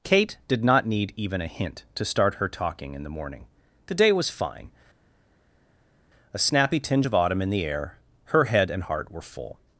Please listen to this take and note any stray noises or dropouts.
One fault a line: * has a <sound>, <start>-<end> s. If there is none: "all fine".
all fine